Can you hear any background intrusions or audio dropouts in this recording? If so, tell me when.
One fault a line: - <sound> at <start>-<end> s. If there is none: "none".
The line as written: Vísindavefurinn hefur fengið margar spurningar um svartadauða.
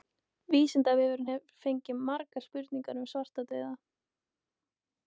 none